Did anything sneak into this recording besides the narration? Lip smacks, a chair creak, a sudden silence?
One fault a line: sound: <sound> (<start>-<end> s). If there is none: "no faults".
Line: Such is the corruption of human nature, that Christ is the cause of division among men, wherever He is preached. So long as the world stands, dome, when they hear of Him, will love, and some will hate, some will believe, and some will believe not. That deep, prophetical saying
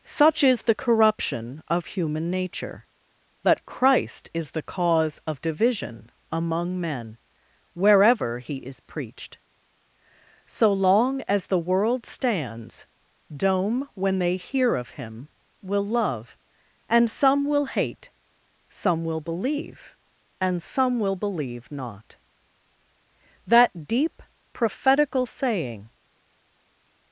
no faults